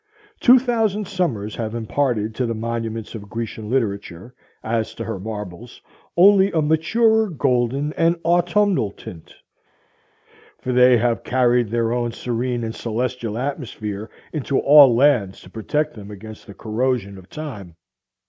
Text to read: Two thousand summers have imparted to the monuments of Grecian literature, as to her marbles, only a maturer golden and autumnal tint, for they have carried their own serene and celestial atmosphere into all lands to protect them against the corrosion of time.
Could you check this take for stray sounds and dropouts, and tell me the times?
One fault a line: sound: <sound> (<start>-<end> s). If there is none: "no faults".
no faults